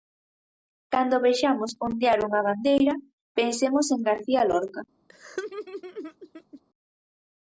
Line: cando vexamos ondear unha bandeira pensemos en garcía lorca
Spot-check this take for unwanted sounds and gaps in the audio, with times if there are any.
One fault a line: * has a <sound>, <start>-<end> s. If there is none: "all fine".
* has a laugh, 5.1-6.6 s